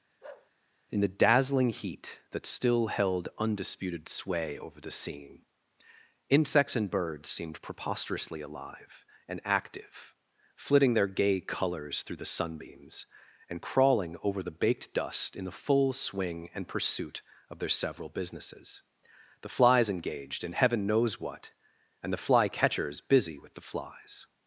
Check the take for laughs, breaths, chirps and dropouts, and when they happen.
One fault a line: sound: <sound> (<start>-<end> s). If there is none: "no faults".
sound: bark (0.2-0.5 s)